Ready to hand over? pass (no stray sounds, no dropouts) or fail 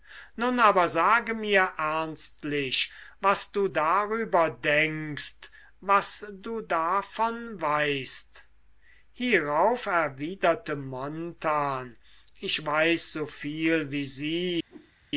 fail